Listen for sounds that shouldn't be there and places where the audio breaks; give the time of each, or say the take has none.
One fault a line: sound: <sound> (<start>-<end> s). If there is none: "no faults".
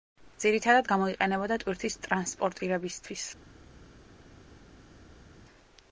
no faults